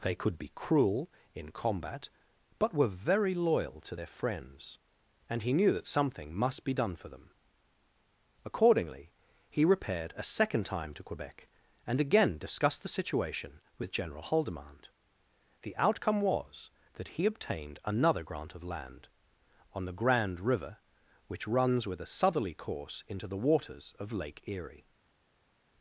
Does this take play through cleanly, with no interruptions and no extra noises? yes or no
yes